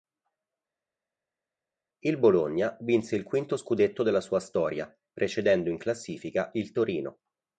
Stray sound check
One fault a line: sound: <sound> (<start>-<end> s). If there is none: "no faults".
no faults